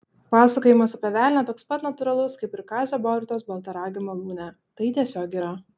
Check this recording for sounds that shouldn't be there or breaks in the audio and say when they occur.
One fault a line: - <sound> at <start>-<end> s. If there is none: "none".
none